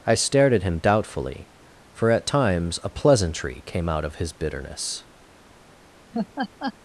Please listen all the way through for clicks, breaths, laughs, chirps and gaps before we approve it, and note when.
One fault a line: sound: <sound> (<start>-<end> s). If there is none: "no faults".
sound: laugh (6.1-6.7 s)